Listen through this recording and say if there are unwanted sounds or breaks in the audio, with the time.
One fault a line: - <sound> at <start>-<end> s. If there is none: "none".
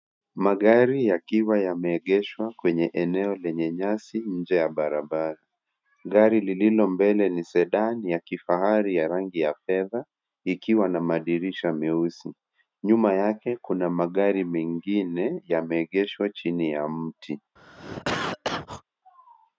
- cough at 17.6-18.8 s